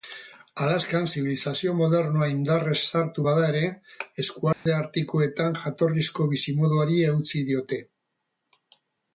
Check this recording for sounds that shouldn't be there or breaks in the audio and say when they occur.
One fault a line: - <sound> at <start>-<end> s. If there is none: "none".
- dropout at 4.5-4.7 s